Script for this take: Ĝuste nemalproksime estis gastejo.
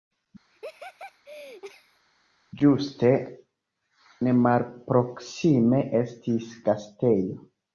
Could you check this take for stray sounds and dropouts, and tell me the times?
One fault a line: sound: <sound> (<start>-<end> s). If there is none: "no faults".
sound: laugh (0.5-2.0 s)